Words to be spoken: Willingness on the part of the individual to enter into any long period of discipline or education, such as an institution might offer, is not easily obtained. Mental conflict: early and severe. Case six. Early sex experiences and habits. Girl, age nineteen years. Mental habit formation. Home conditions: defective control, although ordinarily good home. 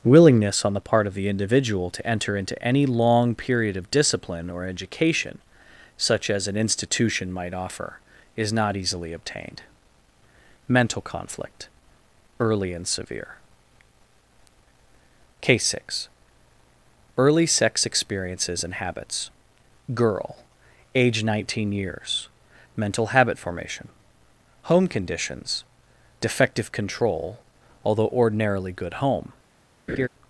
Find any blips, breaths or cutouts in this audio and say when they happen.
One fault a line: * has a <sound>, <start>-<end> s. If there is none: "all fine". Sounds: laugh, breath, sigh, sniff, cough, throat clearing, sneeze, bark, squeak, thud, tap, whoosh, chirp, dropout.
* has a laugh, 29.9-30.1 s